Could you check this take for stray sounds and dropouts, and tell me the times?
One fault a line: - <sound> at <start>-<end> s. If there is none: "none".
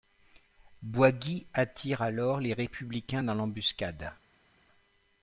none